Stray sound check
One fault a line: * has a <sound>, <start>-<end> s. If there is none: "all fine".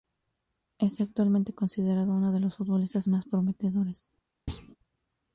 * has a thud, 4.5-4.8 s